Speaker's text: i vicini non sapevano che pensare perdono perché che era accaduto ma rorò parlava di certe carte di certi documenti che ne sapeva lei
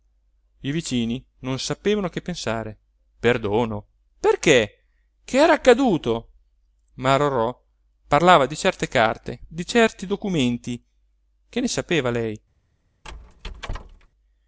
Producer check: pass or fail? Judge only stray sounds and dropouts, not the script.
fail